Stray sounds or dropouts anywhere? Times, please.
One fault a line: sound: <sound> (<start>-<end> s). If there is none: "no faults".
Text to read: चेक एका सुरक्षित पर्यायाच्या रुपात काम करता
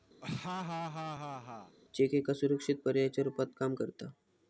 sound: laugh (0.2-1.8 s)